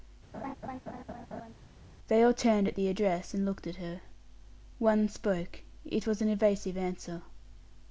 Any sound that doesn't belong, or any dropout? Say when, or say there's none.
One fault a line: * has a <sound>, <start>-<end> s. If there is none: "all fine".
* has a laugh, 0.3-1.5 s